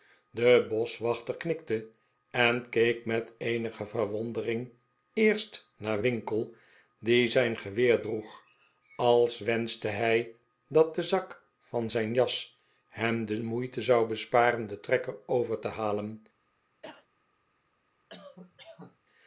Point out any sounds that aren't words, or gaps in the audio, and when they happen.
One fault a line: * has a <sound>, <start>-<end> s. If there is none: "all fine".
* has a cough, 16.8-17.1 s
* has a cough, 18.1-19.0 s